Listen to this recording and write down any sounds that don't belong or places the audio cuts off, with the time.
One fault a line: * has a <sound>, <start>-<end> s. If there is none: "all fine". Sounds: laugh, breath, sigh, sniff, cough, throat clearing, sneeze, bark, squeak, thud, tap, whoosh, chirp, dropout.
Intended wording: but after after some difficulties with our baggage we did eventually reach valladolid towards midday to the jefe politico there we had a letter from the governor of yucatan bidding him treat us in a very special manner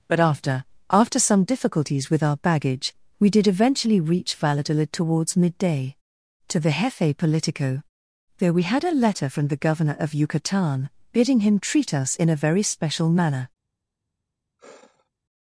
* has a sigh, 14.6-15.1 s